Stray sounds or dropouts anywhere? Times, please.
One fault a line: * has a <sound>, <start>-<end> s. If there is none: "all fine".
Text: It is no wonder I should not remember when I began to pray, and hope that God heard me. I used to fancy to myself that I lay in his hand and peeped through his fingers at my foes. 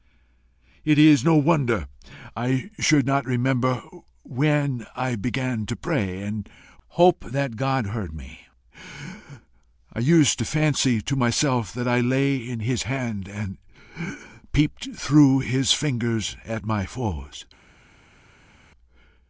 all fine